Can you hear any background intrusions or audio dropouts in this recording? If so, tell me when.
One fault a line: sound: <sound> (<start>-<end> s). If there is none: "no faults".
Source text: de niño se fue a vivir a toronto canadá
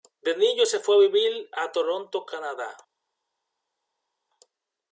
no faults